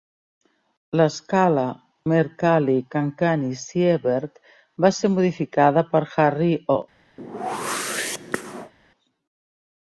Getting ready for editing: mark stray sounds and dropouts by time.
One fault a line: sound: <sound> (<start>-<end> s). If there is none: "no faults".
sound: whoosh (7.2-8.7 s)